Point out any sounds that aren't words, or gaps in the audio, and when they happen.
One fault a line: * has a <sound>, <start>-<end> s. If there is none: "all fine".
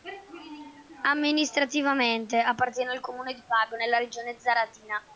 all fine